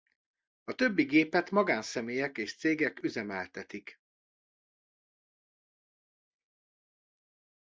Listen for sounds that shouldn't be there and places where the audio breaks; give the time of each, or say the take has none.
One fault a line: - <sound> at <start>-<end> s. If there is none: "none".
none